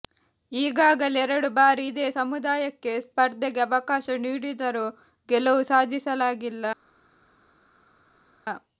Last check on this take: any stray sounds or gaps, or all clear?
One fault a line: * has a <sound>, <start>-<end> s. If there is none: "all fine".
all fine